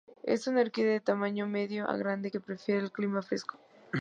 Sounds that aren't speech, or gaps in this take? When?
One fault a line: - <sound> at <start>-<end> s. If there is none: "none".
none